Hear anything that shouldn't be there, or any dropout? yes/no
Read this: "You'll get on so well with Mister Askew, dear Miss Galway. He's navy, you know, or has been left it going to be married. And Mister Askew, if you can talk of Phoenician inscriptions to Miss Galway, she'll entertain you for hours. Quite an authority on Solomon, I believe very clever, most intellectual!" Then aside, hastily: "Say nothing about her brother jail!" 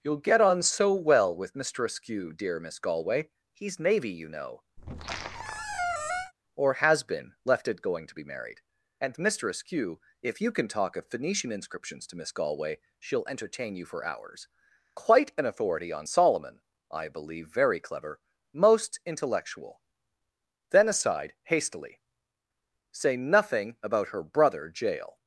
yes